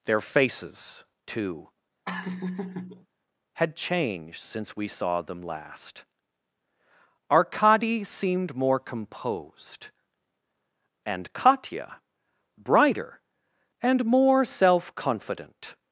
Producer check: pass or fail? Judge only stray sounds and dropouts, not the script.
fail